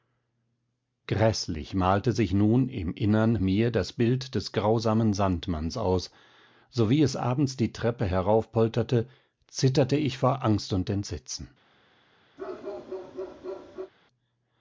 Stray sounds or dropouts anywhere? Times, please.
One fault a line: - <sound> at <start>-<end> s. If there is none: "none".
- bark at 12.4-13.9 s